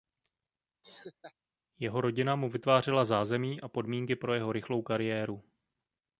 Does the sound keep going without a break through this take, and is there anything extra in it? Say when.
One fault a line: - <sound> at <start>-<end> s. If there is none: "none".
- laugh at 0.8-1.3 s